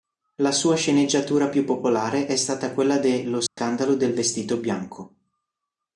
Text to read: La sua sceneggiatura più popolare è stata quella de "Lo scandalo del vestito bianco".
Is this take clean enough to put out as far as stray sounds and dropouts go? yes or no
no